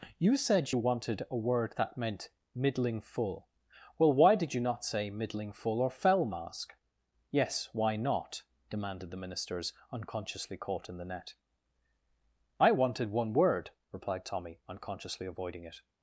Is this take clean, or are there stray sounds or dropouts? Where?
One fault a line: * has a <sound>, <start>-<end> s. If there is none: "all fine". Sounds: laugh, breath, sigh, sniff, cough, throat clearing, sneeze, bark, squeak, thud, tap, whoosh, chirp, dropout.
all fine